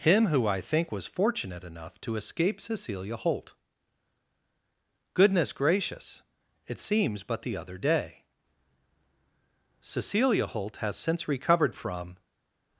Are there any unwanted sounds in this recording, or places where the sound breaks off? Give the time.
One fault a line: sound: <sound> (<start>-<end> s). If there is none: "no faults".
no faults